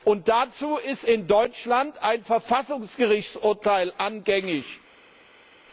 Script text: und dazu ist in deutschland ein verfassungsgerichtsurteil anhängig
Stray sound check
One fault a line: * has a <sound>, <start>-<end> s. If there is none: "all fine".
all fine